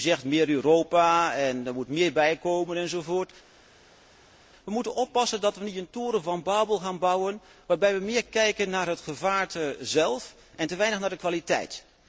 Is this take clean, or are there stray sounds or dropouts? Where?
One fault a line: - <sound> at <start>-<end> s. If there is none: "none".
none